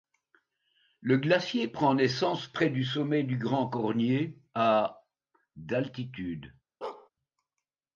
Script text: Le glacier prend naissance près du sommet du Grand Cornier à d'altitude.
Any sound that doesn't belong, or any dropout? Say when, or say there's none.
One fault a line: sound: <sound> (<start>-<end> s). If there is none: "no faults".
sound: bark (6.8-7.1 s)